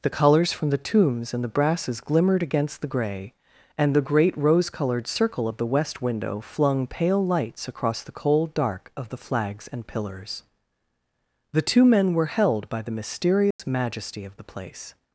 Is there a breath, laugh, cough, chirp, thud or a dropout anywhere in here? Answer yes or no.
yes